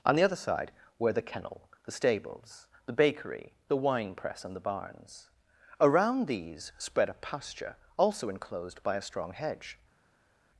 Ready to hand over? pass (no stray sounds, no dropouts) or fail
pass